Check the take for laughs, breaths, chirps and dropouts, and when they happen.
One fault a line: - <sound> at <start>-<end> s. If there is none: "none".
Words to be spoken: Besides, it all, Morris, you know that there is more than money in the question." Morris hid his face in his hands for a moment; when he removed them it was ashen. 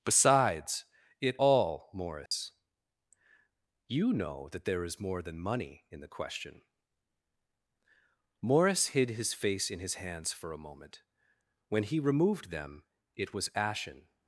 - dropout at 2.3-2.3 s